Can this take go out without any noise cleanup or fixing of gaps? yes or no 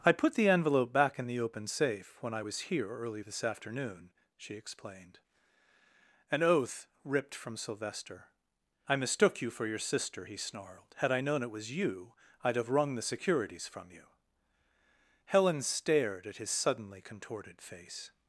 yes